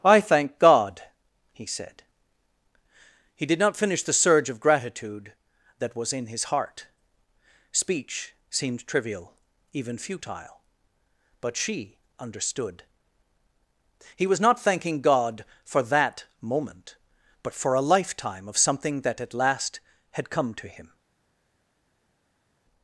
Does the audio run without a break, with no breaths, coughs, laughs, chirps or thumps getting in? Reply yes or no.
yes